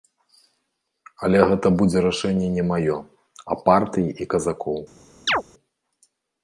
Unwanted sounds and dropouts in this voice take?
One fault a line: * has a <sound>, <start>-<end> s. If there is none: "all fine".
* has a chirp, 5.3-5.4 s